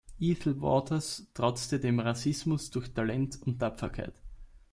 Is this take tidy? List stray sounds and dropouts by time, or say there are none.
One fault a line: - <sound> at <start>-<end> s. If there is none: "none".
none